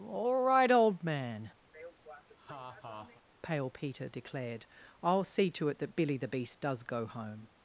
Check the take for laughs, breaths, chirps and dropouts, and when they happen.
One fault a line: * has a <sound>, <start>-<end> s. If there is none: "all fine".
* has a laugh, 1.7-3.2 s